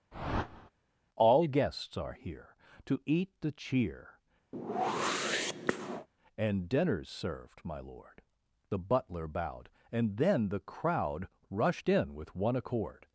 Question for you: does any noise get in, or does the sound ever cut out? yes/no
yes